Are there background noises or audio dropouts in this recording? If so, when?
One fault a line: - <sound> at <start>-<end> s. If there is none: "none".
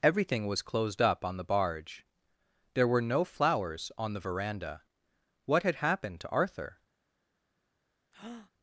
- breath at 8.1-8.5 s